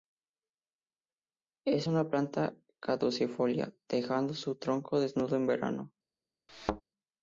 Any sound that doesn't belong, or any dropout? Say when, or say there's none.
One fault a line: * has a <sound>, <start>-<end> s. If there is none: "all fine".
* has a thud, 6.5-6.8 s